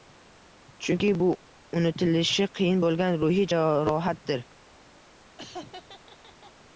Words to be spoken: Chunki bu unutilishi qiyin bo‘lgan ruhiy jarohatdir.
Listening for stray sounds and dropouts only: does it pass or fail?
fail